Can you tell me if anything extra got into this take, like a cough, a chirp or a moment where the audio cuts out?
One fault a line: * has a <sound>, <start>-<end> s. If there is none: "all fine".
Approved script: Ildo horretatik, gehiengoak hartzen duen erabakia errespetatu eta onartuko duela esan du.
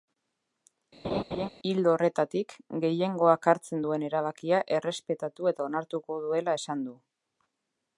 * has a laugh, 1.0-1.5 s